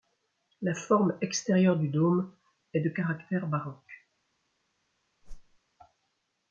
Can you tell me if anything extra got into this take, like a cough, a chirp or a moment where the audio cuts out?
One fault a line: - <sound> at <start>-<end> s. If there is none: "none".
- whoosh at 5.2-5.6 s